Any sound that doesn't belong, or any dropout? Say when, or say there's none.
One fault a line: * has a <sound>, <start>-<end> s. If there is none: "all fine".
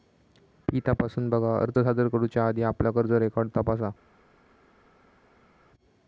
all fine